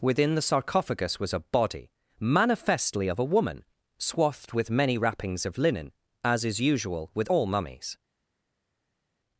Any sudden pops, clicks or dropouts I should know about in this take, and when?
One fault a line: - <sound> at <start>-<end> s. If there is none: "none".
none